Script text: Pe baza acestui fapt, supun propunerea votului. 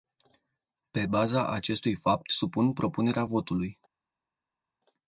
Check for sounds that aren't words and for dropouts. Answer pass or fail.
pass